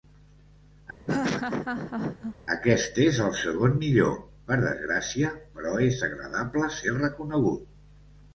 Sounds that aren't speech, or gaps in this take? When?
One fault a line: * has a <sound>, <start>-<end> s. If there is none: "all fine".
* has a laugh, 1.1-2.4 s